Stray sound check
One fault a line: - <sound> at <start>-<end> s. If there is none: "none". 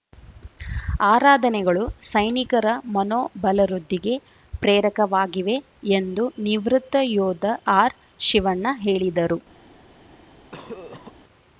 - cough at 10.5-11.1 s